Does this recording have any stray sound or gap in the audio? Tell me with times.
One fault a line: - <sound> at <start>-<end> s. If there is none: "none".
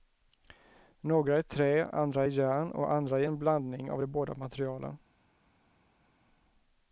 none